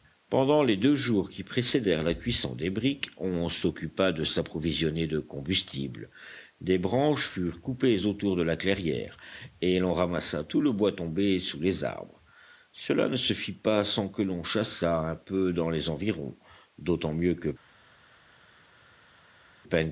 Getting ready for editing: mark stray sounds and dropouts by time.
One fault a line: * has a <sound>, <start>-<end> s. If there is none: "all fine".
all fine